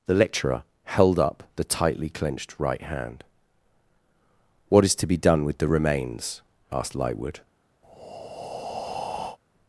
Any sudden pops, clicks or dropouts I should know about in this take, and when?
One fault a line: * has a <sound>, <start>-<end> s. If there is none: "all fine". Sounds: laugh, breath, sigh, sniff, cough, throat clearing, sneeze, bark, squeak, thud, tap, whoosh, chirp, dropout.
* has a breath, 7.8-9.4 s